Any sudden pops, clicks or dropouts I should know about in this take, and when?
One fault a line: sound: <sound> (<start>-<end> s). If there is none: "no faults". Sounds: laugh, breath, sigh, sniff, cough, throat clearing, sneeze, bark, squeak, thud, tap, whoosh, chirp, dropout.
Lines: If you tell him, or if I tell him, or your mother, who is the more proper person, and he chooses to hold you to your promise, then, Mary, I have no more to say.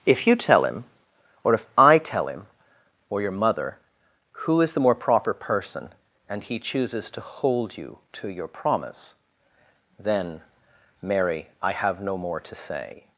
no faults